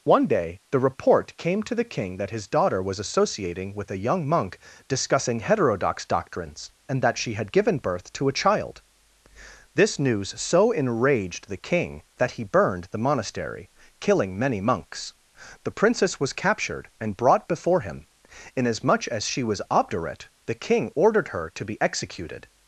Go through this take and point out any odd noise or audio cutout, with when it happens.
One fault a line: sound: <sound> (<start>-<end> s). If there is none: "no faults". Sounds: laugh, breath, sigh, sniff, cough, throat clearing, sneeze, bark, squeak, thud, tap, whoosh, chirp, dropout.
no faults